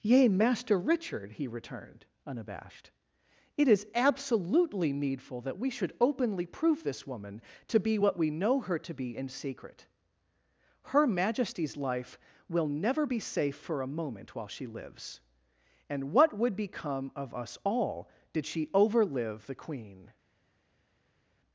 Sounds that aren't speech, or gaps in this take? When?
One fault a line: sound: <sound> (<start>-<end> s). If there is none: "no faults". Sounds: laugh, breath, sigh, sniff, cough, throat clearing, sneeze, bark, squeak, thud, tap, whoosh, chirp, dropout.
no faults